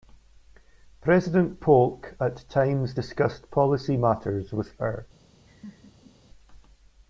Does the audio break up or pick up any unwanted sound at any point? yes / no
yes